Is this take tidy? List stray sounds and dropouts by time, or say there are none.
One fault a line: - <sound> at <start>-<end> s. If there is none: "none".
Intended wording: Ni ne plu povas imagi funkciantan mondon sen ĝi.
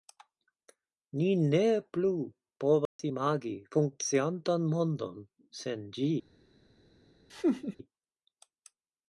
- dropout at 2.9-3.0 s
- laugh at 7.3-7.8 s